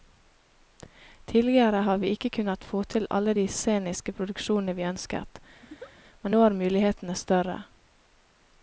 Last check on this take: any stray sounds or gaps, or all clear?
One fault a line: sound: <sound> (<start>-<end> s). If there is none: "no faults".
sound: laugh (5.6-5.9 s)